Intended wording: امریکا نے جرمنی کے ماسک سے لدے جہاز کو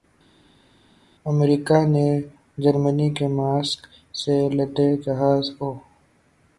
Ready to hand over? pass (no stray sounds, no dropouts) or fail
pass